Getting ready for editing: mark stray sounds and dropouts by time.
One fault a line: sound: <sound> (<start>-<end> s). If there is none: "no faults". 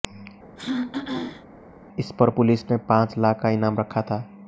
sound: throat clearing (0.6-1.5 s)